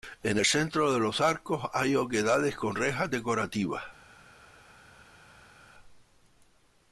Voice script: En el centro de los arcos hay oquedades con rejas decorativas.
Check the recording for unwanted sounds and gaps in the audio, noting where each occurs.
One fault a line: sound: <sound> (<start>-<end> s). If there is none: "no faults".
no faults